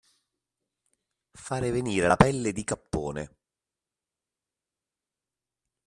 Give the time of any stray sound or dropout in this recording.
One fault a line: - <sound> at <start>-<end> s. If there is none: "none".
none